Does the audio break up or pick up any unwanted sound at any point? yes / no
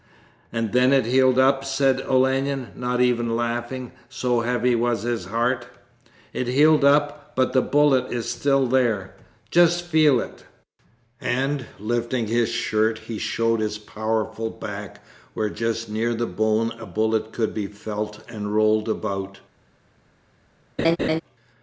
yes